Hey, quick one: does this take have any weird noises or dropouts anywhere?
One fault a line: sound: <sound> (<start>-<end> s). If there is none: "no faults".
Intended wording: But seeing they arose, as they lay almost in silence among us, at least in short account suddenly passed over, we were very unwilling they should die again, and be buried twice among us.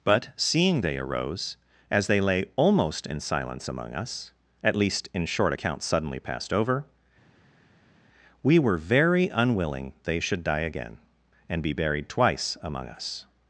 no faults